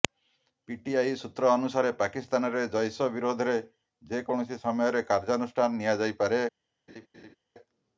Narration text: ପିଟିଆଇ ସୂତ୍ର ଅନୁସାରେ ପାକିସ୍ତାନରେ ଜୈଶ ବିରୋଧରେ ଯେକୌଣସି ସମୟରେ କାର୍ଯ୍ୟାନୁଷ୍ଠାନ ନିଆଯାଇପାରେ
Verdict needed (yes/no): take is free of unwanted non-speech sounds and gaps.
no